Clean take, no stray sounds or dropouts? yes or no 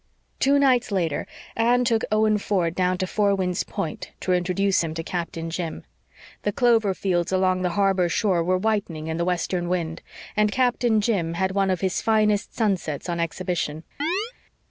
no